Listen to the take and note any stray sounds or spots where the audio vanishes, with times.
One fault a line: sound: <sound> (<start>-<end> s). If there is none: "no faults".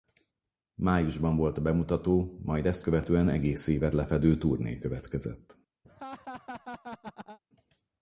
sound: laugh (5.8-7.4 s)